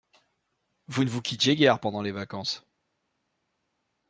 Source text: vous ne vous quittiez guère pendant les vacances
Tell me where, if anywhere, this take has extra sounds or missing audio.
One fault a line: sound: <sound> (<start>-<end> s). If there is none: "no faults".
no faults